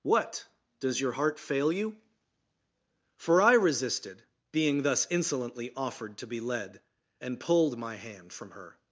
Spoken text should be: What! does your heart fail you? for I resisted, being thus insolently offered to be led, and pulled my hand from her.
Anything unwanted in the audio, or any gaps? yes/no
no